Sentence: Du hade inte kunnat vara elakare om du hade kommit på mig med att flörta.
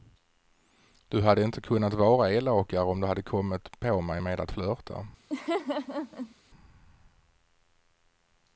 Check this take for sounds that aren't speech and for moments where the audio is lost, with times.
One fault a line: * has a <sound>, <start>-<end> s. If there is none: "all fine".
* has a laugh, 5.3-6.3 s